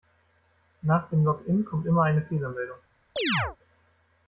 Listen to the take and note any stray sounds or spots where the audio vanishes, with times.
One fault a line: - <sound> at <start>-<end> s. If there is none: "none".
- chirp at 3.2-3.6 s